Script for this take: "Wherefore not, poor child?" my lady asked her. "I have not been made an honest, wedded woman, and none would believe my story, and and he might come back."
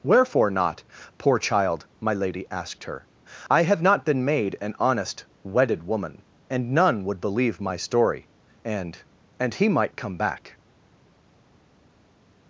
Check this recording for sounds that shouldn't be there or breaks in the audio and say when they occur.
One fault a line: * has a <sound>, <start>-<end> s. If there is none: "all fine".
all fine